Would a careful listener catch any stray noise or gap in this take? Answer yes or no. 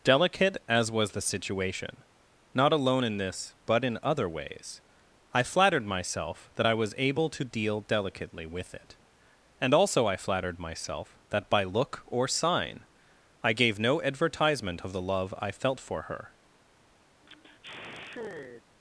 yes